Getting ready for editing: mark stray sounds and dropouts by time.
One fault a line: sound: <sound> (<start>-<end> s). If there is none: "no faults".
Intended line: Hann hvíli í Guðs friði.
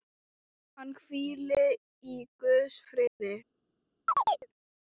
sound: dropout (3.1-3.2 s)
sound: chirp (4.1-4.5 s)